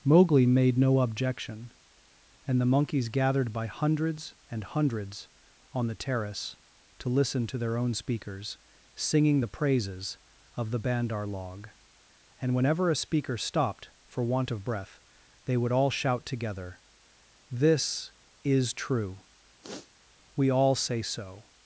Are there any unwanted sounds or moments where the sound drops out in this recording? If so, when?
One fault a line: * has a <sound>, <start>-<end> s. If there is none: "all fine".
* has a sniff, 19.6-19.9 s